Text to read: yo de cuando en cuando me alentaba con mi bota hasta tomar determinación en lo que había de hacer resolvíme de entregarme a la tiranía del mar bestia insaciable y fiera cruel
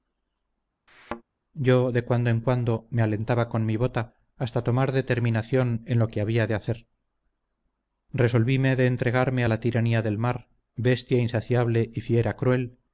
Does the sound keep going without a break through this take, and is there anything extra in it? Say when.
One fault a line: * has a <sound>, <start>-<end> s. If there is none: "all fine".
* has a thud, 0.9-1.2 s